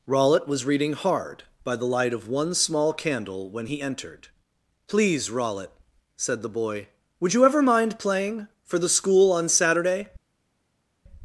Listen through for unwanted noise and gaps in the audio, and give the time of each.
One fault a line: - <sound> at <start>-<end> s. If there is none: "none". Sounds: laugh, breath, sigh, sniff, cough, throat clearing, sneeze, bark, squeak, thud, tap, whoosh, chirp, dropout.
none